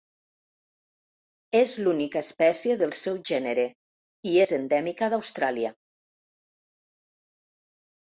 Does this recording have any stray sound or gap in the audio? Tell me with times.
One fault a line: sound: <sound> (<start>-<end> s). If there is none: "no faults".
no faults